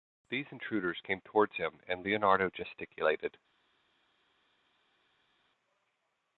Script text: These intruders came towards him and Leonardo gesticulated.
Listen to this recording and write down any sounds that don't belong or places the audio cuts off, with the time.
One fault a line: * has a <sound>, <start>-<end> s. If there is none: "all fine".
all fine